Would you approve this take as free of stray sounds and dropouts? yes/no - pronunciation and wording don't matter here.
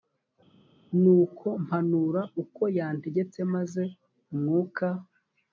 yes